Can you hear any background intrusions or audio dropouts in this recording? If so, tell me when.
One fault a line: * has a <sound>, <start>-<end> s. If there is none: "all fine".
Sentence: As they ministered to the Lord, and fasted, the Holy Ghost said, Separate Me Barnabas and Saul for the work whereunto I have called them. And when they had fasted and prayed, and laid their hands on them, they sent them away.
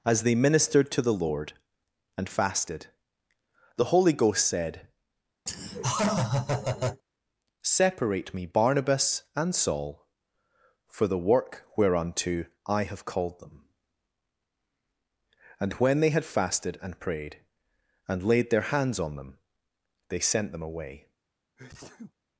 * has a laugh, 5.5-7.0 s
* has a sneeze, 21.6-22.1 s